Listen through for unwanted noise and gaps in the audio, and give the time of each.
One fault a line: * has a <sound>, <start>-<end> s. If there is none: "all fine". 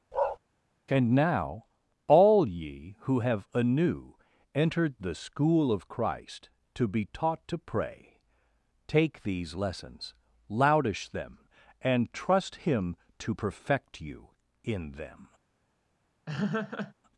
* has a bark, 0.1-0.4 s
* has a laugh, 16.3-16.9 s